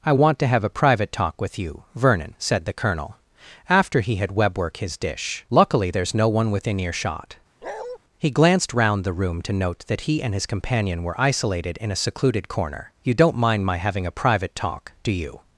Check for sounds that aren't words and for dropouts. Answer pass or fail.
fail